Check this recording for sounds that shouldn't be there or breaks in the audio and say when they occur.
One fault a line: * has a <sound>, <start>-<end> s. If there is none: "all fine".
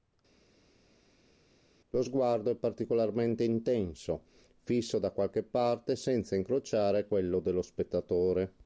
all fine